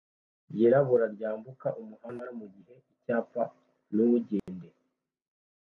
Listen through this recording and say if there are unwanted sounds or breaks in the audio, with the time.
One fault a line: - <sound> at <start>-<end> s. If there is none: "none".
- dropout at 4.4-4.5 s